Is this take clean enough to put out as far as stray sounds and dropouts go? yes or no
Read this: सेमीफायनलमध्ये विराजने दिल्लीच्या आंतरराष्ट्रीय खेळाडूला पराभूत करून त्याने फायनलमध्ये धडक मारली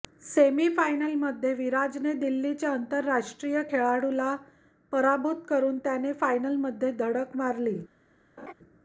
no